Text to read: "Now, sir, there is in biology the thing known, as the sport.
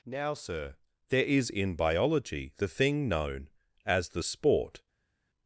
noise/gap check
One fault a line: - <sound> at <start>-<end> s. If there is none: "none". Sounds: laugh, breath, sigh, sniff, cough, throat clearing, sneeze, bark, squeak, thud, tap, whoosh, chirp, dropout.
none